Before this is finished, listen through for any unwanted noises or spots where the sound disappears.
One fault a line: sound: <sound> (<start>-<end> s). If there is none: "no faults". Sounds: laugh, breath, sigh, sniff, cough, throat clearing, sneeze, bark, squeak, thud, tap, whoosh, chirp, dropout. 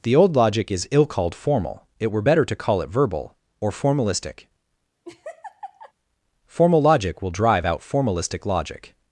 sound: laugh (5.0-5.9 s)